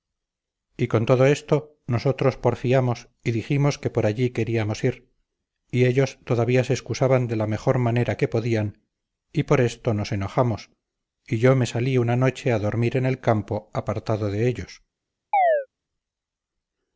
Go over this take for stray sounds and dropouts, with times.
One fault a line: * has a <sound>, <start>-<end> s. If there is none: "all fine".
* has a chirp, 15.3-15.7 s